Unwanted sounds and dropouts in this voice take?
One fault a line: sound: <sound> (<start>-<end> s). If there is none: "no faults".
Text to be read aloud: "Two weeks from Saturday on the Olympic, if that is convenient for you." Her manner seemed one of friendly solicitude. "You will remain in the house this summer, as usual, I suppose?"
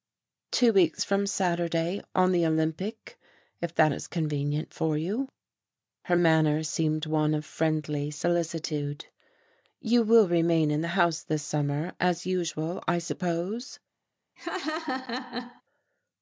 sound: laugh (14.4-15.6 s)